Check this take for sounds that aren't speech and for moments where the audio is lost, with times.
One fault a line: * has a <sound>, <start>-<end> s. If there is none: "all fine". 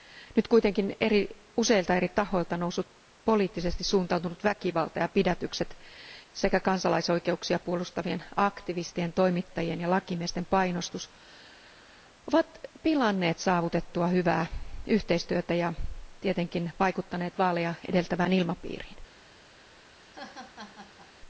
* has a laugh, 20.0-21.1 s